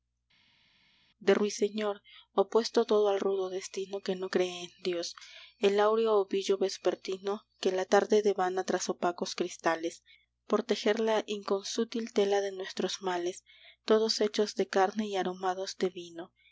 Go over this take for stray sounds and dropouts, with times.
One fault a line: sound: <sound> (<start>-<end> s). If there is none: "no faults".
no faults